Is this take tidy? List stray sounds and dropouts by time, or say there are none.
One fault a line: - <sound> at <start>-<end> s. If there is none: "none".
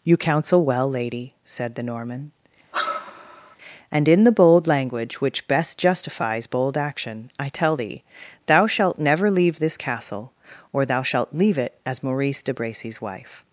- sigh at 2.7-3.6 s